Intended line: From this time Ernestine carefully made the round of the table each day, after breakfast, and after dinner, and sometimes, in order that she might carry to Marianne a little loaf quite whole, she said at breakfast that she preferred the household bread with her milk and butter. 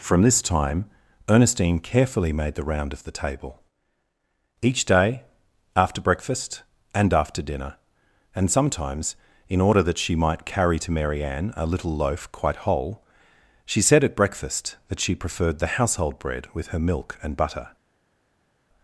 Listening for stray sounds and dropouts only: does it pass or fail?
pass